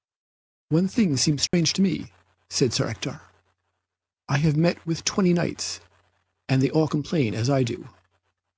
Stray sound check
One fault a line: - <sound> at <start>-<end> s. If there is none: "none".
- dropout at 1.5-1.5 s